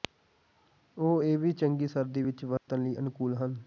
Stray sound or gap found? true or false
true